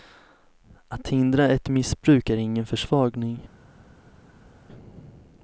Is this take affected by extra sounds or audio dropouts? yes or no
no